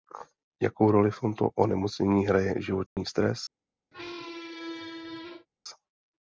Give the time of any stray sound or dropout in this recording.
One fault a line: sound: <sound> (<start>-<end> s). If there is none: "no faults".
sound: dropout (2.9-3.0 s)
sound: squeak (3.9-5.5 s)